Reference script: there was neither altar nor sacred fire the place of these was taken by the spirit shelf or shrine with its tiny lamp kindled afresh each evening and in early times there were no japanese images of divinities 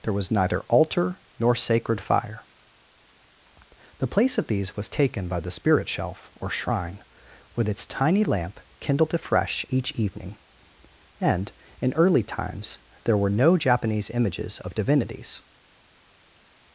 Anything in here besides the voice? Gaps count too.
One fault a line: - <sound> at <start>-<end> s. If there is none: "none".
none